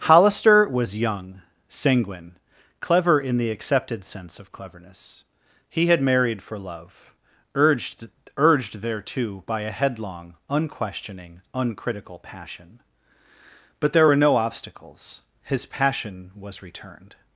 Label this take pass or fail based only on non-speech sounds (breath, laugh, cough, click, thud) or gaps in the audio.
pass